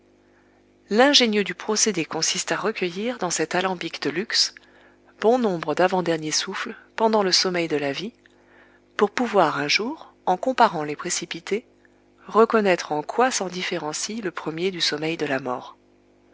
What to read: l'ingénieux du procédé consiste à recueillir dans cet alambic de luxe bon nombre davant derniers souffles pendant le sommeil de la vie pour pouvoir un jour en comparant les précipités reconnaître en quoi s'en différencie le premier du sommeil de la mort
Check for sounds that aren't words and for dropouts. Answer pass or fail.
pass